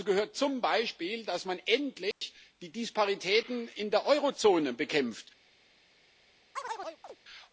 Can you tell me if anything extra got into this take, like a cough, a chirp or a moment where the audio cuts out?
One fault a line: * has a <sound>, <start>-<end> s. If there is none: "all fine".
* has a dropout, 2.1-2.2 s
* has a chirp, 6.6-7.2 s